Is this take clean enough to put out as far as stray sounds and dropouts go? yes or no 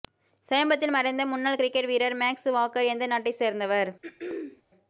no